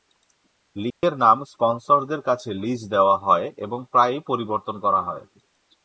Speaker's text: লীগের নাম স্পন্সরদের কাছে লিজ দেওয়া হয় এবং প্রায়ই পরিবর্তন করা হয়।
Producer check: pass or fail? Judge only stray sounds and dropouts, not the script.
fail